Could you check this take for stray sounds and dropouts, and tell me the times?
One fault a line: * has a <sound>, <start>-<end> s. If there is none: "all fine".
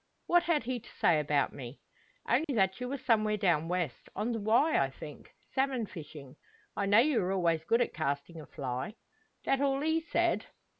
* has a dropout, 2.4-2.5 s